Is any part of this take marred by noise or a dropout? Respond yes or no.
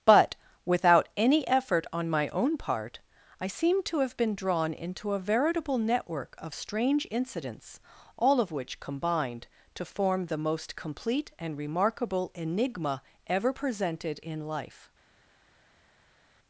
no